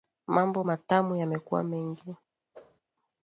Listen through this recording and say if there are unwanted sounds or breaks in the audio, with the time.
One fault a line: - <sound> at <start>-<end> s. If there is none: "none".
- whoosh at 2.5-2.8 s